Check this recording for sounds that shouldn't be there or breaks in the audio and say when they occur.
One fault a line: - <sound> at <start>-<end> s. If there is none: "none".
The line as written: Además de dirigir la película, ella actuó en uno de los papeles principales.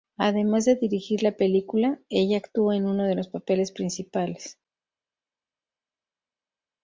none